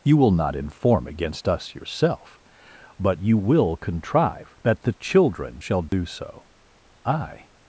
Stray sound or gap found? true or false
true